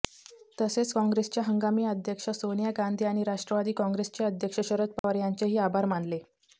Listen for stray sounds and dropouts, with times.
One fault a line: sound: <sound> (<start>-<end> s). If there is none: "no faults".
sound: dropout (5.0-5.0 s)